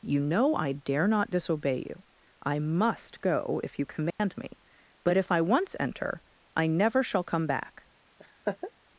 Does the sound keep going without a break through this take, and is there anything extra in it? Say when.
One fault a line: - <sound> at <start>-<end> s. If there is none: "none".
- dropout at 4.1-4.2 s
- laugh at 8.2-8.7 s